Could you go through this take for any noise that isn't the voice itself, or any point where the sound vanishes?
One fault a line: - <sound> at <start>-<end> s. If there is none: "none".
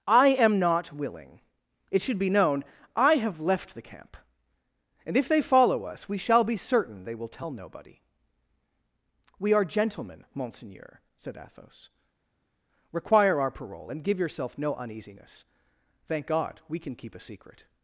none